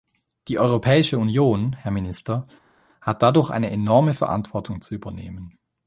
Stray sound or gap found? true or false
false